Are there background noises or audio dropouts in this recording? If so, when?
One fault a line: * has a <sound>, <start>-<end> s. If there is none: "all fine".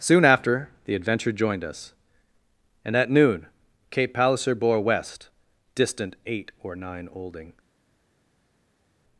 all fine